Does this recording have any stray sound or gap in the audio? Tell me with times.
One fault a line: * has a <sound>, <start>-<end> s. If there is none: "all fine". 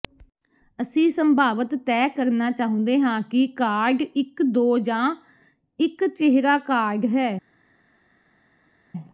all fine